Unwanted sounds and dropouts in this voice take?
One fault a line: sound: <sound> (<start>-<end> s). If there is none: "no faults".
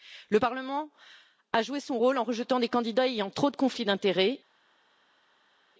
no faults